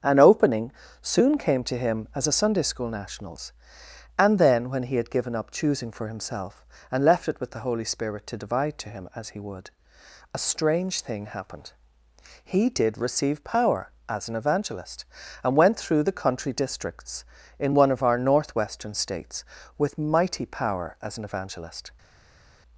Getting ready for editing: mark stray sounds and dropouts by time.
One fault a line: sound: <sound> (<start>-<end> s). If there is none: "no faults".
no faults